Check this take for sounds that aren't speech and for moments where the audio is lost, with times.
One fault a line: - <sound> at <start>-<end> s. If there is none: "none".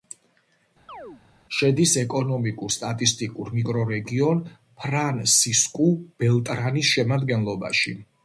- chirp at 0.9-1.2 s